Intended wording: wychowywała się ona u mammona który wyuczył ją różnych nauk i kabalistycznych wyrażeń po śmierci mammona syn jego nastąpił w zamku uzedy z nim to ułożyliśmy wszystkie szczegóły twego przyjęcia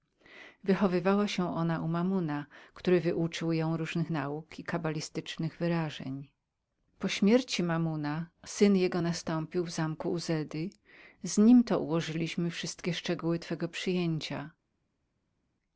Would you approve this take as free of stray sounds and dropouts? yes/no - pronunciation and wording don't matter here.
yes